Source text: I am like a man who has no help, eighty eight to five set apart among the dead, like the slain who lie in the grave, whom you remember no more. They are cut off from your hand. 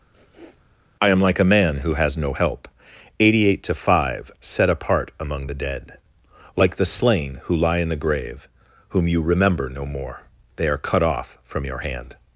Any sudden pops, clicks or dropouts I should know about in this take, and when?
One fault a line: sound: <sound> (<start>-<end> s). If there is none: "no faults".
sound: sniff (0.1-0.7 s)